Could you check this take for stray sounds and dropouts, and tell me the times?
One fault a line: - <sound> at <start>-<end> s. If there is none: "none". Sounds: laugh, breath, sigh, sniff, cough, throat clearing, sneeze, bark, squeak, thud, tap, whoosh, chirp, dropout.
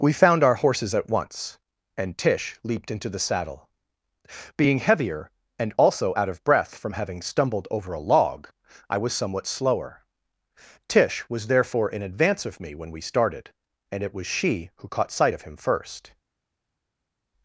none